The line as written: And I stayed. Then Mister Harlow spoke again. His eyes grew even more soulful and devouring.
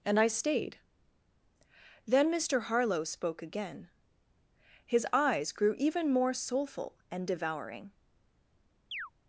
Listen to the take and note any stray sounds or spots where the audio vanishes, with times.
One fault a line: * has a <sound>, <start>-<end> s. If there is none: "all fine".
* has a chirp, 8.9-9.1 s